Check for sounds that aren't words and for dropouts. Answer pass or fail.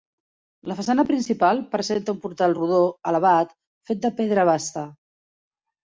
pass